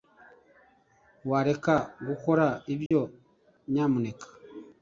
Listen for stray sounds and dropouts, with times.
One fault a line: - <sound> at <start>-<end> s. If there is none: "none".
- dropout at 2.9-2.9 s